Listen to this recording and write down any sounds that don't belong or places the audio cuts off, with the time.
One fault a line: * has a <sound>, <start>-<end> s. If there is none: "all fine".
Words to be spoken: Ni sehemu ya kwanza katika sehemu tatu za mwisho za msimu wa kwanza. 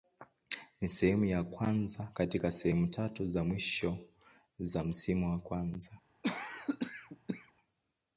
* has a cough, 6.2-7.5 s